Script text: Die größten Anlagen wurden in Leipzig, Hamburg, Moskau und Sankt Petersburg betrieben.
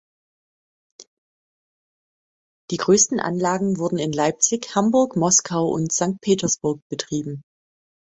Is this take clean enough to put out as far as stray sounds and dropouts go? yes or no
yes